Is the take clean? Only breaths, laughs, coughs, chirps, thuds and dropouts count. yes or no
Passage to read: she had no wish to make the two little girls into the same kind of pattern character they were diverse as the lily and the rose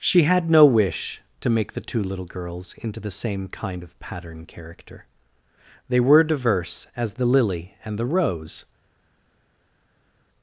yes